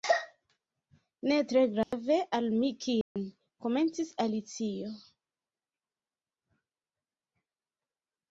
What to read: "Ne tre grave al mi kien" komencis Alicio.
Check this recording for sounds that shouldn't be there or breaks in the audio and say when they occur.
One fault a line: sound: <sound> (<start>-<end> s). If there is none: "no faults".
sound: dropout (1.8-1.9 s)
sound: dropout (3.0-3.2 s)